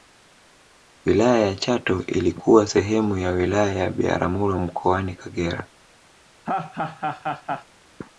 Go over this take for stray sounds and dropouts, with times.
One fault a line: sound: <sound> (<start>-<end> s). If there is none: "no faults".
sound: laugh (6.4-7.7 s)